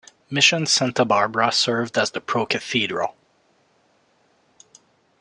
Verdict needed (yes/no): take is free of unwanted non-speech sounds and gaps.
yes